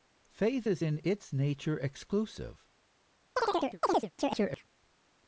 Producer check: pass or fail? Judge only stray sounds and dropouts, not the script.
fail